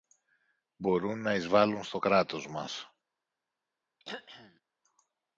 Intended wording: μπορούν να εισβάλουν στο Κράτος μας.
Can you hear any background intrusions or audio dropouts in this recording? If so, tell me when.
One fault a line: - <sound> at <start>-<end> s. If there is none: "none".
- throat clearing at 4.0-4.6 s